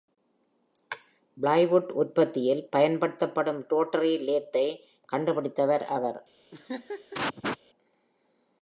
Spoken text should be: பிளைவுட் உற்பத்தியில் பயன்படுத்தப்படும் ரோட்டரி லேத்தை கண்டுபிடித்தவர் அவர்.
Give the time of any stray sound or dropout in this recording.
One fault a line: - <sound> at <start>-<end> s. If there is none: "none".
- laugh at 6.5-7.6 s